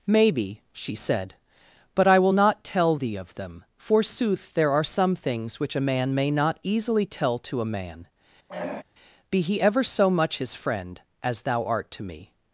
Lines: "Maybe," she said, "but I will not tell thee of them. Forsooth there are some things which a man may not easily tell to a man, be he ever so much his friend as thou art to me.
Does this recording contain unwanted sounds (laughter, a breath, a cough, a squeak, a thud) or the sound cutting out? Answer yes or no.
yes